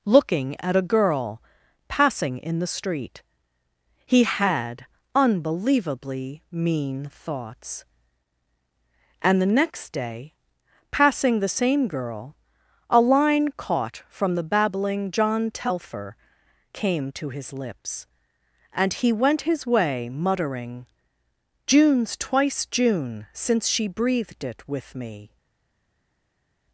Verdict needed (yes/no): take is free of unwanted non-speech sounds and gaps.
yes